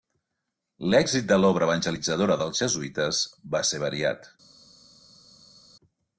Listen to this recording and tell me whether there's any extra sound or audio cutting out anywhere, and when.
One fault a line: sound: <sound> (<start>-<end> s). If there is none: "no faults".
no faults